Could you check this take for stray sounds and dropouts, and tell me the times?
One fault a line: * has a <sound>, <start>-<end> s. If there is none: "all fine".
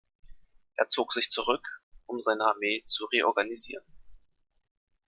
all fine